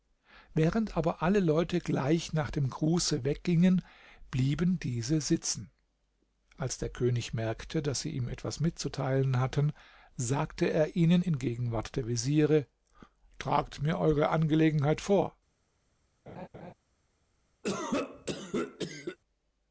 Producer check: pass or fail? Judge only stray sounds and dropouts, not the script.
fail